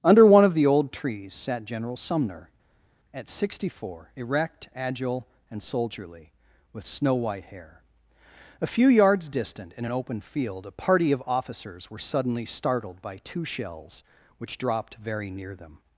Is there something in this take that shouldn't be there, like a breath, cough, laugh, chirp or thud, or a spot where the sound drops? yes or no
no